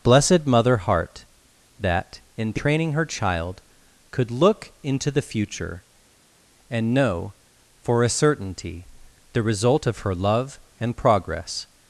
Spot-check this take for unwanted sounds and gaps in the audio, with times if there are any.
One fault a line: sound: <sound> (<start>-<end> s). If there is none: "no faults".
no faults